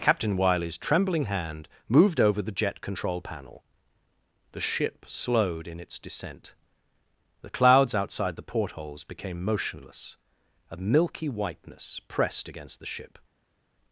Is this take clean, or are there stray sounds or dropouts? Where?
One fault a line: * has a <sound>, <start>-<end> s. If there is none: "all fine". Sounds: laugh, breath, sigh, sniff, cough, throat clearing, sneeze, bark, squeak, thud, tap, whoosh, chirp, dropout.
all fine